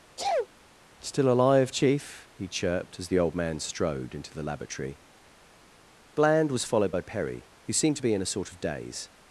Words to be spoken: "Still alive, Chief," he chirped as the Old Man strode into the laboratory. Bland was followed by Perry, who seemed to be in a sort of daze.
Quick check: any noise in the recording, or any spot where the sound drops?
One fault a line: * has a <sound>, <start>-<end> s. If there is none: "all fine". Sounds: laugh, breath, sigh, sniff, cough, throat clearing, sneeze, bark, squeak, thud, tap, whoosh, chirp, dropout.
* has a sneeze, 0.2-0.5 s